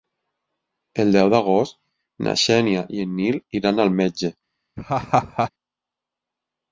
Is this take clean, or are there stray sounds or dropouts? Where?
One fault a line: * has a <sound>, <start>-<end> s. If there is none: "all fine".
* has a laugh, 4.8-5.5 s